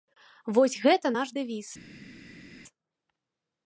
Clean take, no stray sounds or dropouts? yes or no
yes